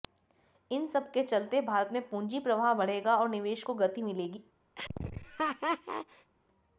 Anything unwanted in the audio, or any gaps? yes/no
yes